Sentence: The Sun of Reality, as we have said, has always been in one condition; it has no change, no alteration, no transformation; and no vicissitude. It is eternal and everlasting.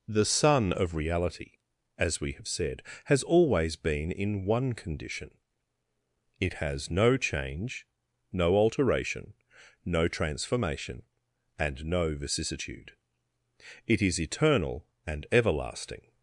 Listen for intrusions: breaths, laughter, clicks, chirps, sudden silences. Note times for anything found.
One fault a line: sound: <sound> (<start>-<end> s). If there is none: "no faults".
no faults